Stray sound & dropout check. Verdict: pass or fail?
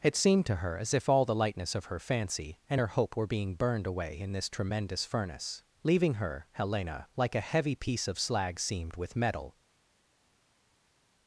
pass